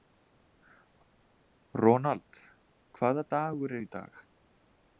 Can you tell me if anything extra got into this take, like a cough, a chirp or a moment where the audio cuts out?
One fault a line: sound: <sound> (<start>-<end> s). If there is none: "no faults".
no faults